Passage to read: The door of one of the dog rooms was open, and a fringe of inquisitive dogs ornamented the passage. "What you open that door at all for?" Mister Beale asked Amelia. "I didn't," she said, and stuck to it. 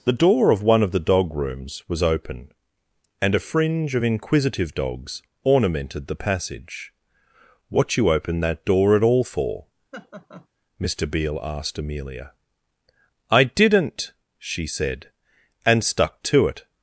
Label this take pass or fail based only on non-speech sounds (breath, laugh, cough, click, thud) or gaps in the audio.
fail